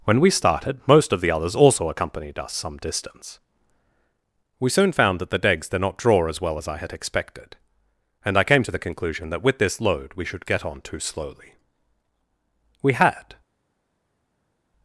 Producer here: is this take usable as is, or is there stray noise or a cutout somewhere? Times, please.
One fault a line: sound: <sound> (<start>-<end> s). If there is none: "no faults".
no faults